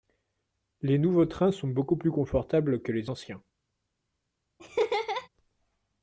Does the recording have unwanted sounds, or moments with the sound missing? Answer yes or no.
yes